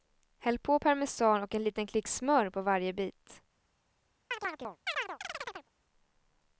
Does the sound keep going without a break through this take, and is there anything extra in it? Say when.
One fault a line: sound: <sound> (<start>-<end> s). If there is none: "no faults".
sound: chirp (4.3-5.7 s)